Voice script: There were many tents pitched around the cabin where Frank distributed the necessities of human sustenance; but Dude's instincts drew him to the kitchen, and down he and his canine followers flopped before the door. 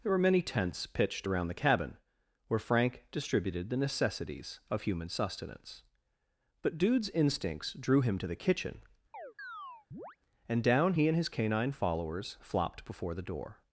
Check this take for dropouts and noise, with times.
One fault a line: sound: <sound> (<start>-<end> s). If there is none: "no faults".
sound: chirp (9.1-10.2 s)